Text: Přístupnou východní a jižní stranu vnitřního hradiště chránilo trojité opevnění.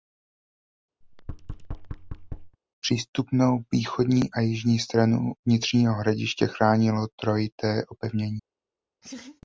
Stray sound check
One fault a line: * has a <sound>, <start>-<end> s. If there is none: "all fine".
* has a thud, 1.0-2.6 s
* has a laugh, 9.0-9.4 s